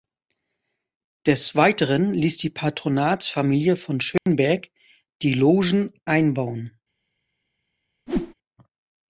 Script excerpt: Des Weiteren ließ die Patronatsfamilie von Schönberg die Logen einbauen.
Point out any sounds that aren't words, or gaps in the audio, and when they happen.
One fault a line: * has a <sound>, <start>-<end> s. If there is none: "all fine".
* has a dropout, 4.2-4.3 s
* has a whoosh, 8.1-8.3 s